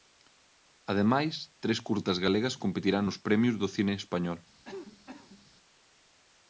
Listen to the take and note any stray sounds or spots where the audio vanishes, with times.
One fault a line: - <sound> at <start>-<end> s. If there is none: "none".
- cough at 4.6-5.5 s